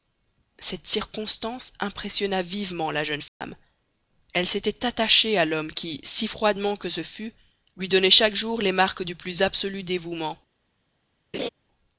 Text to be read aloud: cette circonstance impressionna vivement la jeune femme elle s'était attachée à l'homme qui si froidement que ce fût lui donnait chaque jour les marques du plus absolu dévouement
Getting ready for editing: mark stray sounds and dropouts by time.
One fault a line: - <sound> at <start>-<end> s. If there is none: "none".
- dropout at 3.3-3.4 s
- laugh at 11.3-11.5 s